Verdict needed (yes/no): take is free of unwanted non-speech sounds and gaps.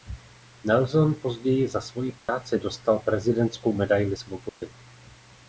no